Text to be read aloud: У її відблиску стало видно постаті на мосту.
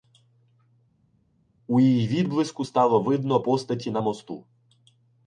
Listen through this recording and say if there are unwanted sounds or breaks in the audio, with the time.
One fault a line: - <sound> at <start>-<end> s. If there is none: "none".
none